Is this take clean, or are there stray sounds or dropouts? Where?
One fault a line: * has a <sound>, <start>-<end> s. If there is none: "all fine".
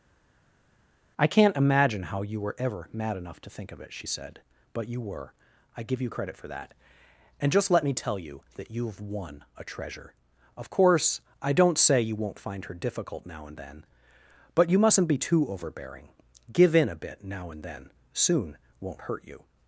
all fine